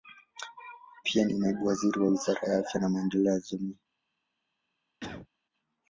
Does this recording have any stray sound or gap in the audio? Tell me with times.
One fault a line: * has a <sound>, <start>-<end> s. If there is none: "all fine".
* has a cough, 5.0-5.3 s